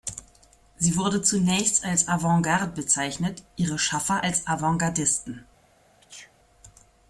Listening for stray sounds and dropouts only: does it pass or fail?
fail